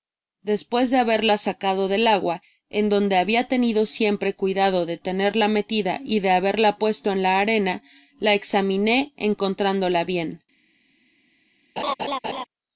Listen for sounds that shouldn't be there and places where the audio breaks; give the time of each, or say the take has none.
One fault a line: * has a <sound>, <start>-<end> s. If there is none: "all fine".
* has a laugh, 11.8-12.4 s